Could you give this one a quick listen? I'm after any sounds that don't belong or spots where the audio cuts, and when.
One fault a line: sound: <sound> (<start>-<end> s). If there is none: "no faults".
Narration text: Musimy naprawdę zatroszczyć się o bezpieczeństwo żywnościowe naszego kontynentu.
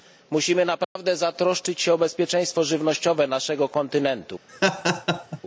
sound: dropout (0.8-1.0 s)
sound: laugh (4.5-5.4 s)